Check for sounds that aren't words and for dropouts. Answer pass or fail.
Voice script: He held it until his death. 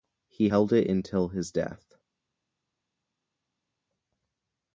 pass